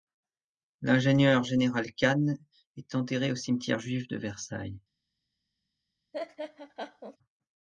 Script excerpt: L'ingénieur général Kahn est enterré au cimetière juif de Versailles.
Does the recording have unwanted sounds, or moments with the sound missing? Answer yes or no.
yes